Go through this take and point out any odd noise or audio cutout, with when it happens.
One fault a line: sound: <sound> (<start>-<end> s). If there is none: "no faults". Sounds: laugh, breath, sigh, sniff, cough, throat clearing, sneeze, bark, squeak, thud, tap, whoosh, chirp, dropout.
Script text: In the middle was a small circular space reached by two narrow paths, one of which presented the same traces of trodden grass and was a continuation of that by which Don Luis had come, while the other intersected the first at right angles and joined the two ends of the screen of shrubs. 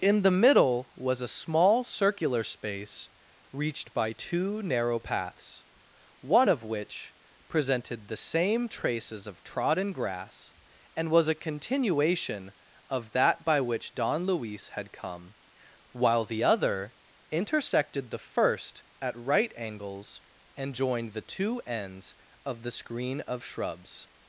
no faults